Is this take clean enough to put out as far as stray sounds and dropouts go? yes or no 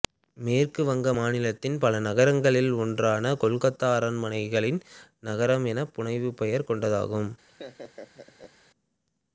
no